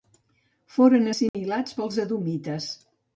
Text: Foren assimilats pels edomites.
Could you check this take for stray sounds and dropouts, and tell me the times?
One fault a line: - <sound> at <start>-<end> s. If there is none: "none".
- dropout at 1.3-1.3 s